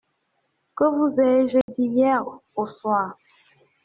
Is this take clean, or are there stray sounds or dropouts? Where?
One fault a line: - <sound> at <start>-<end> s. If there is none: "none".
- dropout at 1.6-1.7 s